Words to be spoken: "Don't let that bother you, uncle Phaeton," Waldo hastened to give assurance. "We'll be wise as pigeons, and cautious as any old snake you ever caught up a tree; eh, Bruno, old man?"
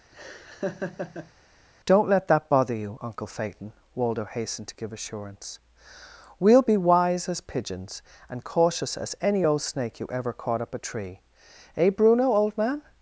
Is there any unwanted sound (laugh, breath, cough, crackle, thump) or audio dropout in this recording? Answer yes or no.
yes